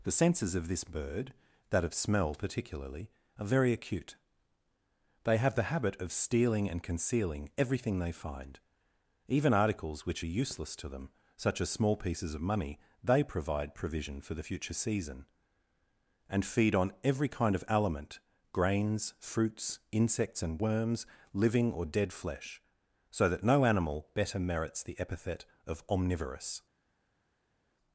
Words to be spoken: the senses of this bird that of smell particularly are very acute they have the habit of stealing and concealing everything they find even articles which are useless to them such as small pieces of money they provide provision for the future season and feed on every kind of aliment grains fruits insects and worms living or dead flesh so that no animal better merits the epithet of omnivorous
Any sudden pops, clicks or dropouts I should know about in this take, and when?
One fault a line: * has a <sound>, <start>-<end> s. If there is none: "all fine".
all fine